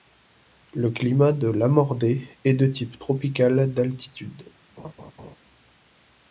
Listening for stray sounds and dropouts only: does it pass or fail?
fail